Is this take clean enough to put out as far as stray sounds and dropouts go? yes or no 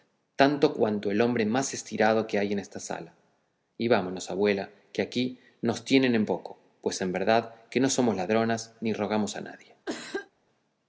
no